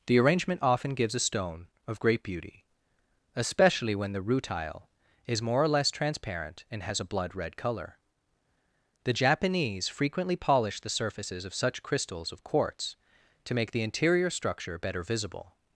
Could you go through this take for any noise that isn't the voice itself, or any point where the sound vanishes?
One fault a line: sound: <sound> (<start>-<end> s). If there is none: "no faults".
no faults